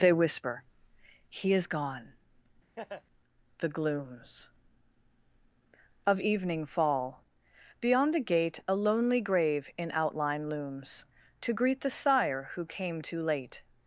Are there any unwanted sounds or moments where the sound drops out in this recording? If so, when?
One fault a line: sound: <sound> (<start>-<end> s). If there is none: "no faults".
sound: laugh (2.8-3.0 s)